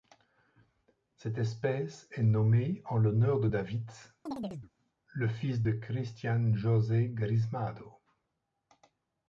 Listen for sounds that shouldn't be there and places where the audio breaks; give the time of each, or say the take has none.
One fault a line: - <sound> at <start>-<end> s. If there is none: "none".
- chirp at 4.3-4.7 s